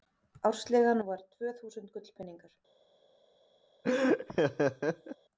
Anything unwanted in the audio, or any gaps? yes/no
yes